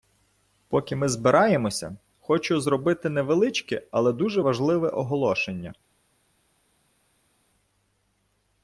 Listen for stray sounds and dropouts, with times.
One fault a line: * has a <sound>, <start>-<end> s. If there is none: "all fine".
all fine